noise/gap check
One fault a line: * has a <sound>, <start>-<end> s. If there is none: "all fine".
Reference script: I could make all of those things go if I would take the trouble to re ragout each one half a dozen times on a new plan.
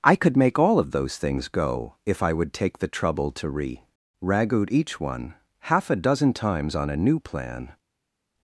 all fine